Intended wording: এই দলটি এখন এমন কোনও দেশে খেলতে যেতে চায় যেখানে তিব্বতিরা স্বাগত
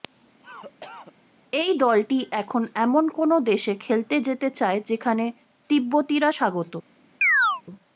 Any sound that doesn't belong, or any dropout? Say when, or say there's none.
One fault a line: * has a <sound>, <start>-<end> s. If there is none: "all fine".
* has a cough, 0.4-1.1 s
* has a chirp, 7.2-7.6 s